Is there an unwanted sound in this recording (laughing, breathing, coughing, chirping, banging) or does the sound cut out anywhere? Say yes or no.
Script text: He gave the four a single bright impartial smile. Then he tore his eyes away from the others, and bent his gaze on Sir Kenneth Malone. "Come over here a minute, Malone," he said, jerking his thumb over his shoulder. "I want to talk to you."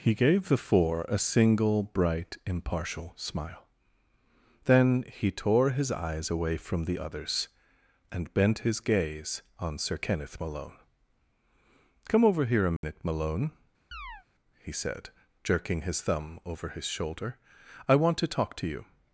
yes